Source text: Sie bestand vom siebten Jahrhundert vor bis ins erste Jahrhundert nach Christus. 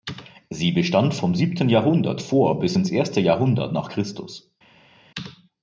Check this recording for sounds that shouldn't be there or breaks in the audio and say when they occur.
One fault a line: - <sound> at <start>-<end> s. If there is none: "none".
none